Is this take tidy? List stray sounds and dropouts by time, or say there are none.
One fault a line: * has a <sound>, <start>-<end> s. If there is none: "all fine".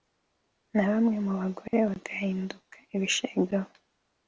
* has a dropout, 1.7-1.7 s